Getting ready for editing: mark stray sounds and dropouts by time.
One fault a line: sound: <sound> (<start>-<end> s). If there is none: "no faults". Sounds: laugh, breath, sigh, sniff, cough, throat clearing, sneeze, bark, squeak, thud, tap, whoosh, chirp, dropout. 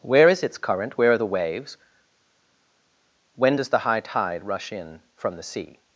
no faults